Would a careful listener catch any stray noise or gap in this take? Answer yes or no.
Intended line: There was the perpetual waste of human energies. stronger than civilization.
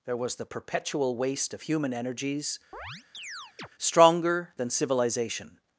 yes